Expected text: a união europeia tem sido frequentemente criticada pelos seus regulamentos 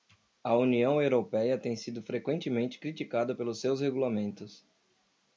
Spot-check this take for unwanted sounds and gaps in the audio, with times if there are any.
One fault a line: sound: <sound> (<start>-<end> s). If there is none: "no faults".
no faults